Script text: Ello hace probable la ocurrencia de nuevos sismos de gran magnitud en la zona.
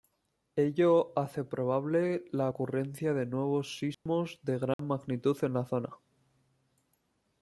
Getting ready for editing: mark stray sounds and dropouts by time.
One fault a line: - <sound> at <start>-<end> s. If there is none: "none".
- dropout at 3.9-4.1 s
- dropout at 4.7-4.8 s